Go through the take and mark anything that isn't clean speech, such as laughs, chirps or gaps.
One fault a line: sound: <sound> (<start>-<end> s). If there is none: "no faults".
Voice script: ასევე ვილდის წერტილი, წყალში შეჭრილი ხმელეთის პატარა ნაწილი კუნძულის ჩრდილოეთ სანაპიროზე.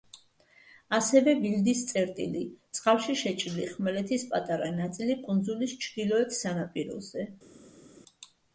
no faults